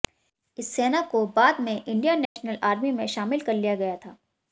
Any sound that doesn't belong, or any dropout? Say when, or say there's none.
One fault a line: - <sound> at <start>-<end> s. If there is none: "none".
- dropout at 2.3-2.4 s